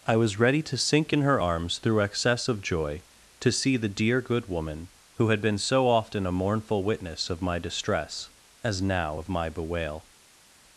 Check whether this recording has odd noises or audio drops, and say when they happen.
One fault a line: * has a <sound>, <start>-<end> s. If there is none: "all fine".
all fine